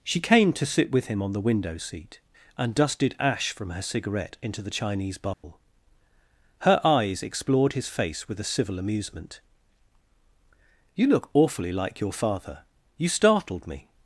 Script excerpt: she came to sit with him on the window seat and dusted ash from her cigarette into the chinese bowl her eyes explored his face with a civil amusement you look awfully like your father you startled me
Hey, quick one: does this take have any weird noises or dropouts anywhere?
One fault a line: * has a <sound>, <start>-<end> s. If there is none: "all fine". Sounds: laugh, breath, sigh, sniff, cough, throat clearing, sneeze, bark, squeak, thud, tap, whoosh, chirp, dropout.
* has a dropout, 5.3-5.4 s